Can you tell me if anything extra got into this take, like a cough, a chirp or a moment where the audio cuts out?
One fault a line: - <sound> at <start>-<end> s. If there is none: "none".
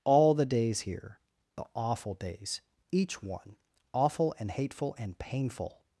none